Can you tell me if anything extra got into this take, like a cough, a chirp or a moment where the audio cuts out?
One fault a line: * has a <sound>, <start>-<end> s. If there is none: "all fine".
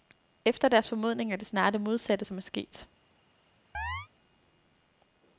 * has a chirp, 3.7-4.1 s